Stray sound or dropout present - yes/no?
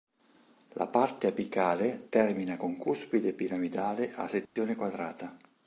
yes